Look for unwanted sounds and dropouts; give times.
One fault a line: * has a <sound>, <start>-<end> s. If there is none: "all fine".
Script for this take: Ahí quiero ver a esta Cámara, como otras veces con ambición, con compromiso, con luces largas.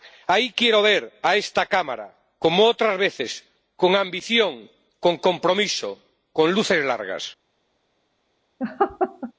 * has a laugh, 8.6-9.3 s